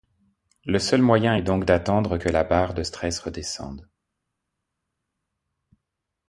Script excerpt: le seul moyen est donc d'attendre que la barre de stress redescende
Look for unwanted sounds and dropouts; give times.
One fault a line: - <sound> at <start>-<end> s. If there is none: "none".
none